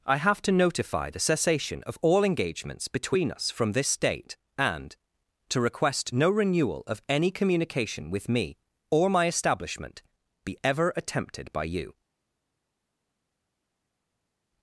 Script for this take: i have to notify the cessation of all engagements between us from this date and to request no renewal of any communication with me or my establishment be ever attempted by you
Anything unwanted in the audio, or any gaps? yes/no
no